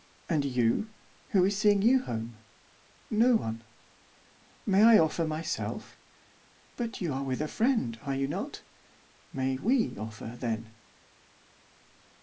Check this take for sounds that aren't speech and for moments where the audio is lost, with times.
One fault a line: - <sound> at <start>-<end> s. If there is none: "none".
none